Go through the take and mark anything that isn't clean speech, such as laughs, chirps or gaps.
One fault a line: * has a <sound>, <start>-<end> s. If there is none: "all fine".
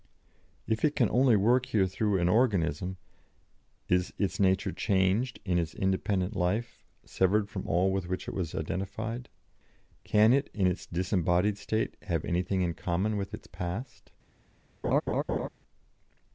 * has a laugh, 14.8-15.5 s